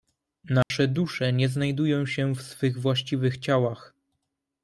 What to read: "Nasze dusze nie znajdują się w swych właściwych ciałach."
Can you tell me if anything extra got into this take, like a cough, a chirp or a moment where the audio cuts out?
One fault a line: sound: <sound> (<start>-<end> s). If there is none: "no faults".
sound: dropout (0.6-0.7 s)